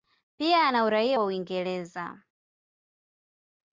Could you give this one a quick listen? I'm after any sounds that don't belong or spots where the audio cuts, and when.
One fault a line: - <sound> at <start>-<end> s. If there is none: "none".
none